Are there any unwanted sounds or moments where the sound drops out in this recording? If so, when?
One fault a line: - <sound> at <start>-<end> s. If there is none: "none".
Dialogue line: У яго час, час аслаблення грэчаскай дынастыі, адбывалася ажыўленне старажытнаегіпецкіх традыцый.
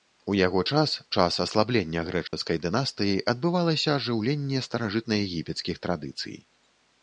- dropout at 2.3-2.3 s